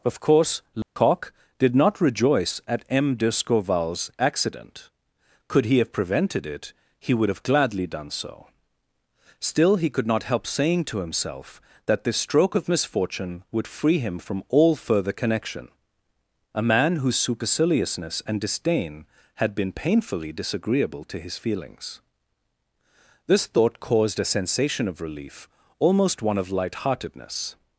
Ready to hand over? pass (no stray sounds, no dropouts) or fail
fail